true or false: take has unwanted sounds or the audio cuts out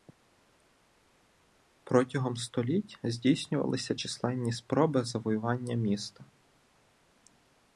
false